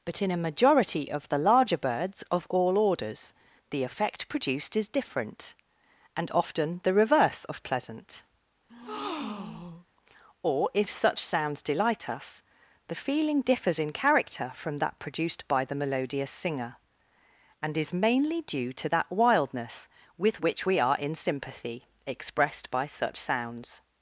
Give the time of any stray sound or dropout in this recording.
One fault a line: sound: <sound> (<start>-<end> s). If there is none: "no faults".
sound: breath (8.7-9.9 s)